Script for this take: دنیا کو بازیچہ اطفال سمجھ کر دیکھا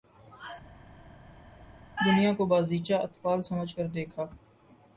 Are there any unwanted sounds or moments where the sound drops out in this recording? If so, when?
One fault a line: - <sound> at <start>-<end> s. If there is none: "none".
none